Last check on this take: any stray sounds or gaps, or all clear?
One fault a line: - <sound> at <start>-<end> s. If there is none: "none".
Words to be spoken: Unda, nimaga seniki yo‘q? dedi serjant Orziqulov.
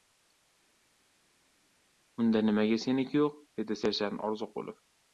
none